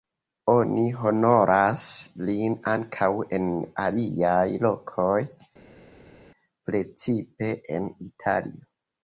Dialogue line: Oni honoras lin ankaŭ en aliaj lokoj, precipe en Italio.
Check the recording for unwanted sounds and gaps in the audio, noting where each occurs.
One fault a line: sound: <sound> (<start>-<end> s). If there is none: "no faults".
no faults